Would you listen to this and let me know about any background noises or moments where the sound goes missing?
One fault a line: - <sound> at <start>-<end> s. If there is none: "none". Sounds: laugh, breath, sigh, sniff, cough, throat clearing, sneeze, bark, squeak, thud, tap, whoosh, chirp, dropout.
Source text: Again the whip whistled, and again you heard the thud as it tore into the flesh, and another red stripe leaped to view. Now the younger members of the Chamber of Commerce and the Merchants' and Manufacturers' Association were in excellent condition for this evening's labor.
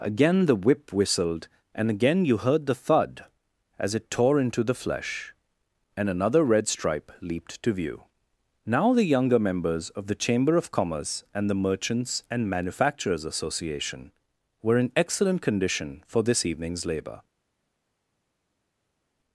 none